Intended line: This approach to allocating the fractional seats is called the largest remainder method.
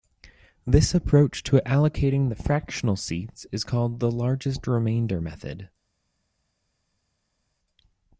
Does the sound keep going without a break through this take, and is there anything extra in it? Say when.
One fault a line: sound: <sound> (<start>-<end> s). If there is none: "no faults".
no faults